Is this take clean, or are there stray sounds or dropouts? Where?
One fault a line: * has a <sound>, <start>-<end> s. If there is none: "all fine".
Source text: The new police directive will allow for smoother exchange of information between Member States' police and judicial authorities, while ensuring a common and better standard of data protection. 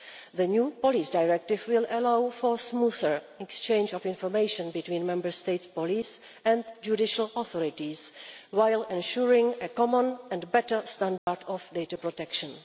* has a dropout, 11.2-11.3 s